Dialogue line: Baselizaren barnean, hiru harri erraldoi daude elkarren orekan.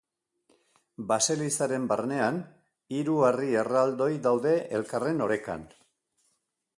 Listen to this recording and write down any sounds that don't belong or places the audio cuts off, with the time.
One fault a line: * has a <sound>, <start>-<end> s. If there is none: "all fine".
all fine